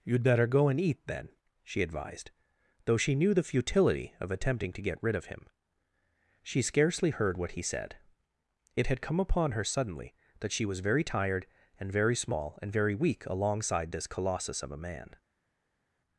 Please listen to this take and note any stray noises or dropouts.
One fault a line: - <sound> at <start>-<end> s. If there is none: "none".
none